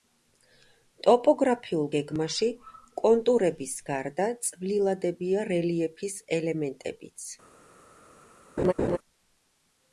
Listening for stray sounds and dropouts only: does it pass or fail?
fail